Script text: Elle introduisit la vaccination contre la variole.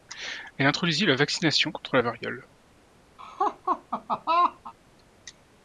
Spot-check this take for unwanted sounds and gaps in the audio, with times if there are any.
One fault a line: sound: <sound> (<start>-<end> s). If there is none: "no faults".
sound: laugh (3.2-4.7 s)